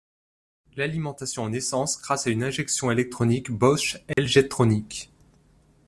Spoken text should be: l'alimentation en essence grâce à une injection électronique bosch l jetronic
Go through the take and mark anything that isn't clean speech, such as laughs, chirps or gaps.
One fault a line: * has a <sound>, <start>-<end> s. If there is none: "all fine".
* has a dropout, 4.1-4.2 s